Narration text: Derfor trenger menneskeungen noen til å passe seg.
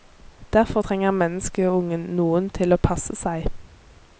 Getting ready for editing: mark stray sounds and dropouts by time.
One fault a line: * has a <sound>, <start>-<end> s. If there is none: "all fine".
all fine